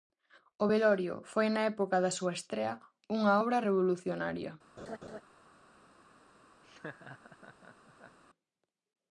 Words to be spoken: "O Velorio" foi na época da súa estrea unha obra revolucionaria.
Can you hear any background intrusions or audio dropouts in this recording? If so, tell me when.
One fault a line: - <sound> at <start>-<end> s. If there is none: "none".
- laugh at 4.8-5.2 s
- laugh at 6.6-8.2 s